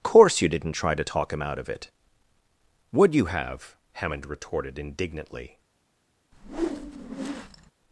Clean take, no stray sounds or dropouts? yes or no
no